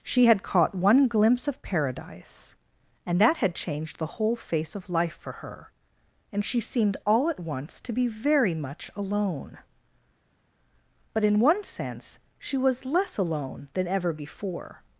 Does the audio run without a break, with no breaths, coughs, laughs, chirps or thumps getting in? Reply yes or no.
yes